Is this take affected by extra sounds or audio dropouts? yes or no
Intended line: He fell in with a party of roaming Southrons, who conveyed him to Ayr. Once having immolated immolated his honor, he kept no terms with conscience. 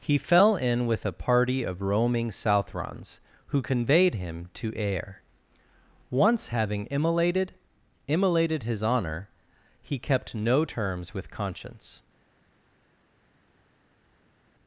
no